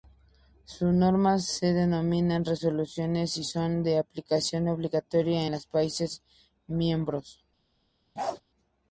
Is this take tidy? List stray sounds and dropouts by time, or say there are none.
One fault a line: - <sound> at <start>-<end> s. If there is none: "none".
- bark at 8.2-8.4 s